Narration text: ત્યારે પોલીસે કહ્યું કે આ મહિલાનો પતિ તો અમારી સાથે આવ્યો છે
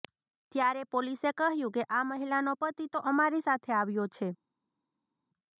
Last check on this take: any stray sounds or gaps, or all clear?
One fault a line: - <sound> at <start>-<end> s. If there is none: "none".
none